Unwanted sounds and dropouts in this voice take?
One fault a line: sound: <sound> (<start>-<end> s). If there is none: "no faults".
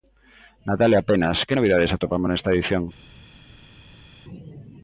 no faults